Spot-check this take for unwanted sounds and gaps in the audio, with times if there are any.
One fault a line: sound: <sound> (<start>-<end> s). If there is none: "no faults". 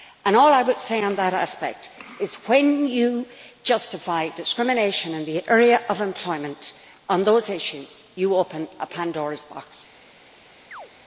sound: chirp (10.7-10.9 s)